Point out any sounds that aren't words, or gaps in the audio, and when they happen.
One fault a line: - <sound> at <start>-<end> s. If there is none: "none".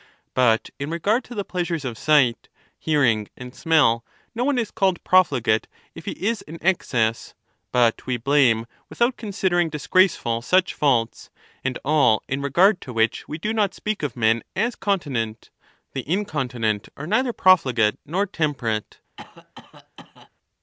- cough at 19.2-20.3 s